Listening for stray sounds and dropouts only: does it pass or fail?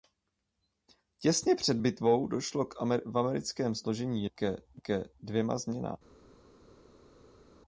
pass